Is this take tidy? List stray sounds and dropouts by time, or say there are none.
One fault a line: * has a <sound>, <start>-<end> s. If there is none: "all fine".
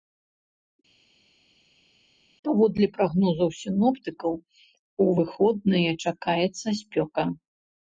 all fine